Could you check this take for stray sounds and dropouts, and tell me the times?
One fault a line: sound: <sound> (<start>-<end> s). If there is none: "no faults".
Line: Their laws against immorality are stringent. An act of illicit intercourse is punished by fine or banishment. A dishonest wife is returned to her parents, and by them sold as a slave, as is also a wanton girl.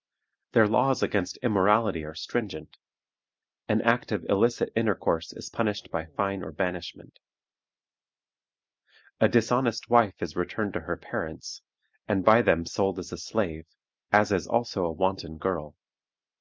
no faults